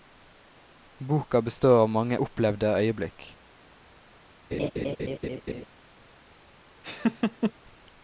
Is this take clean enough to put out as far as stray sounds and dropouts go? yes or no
no